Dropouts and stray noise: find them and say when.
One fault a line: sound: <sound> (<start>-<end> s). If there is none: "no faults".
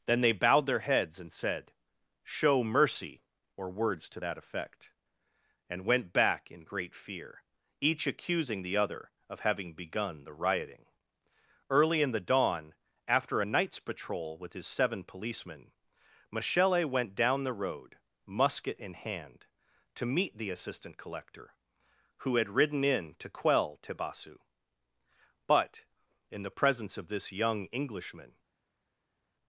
no faults